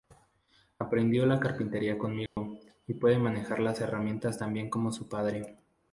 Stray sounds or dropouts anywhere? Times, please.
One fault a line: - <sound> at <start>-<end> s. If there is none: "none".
- dropout at 2.3-2.4 s